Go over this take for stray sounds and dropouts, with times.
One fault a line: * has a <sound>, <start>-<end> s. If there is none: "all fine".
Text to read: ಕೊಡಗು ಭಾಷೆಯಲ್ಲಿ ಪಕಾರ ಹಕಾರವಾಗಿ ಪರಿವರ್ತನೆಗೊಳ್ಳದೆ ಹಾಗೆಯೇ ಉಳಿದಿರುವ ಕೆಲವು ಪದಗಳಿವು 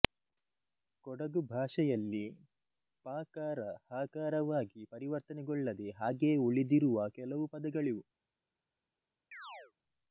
* has a chirp, 9.3-9.7 s